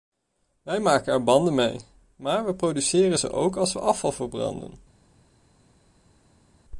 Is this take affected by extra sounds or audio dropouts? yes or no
no